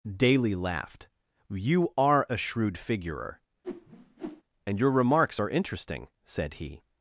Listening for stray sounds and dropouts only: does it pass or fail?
fail